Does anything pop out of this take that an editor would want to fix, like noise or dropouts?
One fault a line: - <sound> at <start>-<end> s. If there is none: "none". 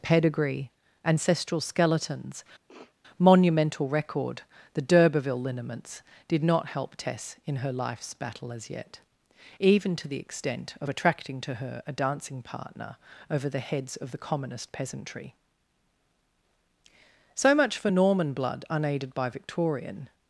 - sniff at 2.7-3.0 s